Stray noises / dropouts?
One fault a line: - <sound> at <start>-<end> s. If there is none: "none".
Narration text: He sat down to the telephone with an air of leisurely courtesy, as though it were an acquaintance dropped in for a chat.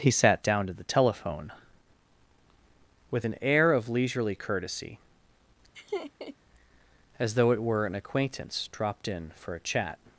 - laugh at 5.7-6.4 s